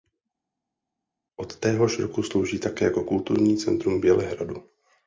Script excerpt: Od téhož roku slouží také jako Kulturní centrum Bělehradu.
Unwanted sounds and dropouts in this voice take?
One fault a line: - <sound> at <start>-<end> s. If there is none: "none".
none